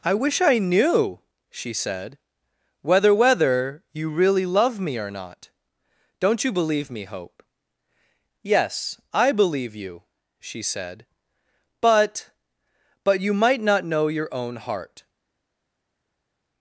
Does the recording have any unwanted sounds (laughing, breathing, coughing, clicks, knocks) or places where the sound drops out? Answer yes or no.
no